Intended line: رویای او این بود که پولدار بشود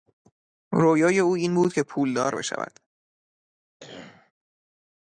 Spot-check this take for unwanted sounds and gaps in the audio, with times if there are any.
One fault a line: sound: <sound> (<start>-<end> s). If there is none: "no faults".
sound: cough (3.8-4.3 s)